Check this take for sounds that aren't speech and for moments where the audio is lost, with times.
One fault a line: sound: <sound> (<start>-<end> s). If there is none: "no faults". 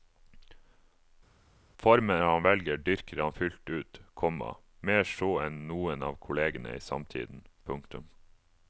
no faults